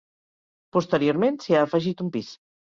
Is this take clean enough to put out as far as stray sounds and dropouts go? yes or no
yes